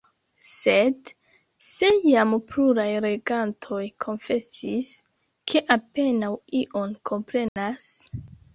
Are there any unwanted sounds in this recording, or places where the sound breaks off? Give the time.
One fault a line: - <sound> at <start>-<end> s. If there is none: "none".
- dropout at 7.5-7.6 s